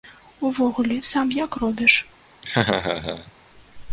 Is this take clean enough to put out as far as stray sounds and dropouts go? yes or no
no